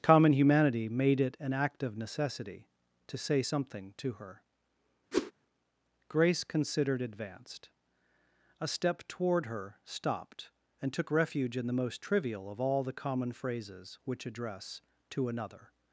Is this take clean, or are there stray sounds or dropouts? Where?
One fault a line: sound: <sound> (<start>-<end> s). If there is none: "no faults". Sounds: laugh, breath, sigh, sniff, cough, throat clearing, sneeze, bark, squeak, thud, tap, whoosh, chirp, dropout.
sound: whoosh (5.1-5.3 s)